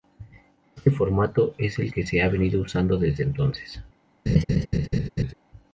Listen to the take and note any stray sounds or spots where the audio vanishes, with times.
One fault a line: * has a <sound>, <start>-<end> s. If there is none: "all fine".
* has a laugh, 4.3-5.3 s